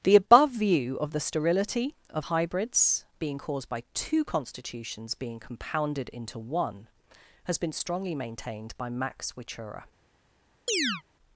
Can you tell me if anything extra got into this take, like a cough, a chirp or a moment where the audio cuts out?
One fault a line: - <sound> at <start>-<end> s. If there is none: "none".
- chirp at 10.7-11.0 s